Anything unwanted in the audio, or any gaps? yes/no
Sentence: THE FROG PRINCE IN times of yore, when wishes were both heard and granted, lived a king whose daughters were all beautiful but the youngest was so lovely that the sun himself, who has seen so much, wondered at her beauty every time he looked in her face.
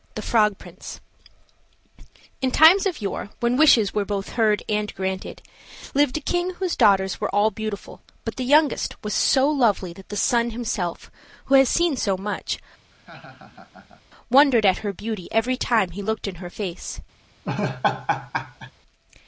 yes